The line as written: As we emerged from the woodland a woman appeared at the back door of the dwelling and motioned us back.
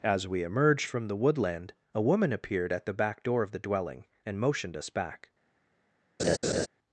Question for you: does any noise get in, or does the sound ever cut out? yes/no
yes